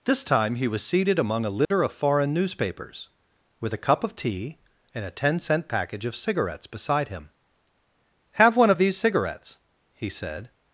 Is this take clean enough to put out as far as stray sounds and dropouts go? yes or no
no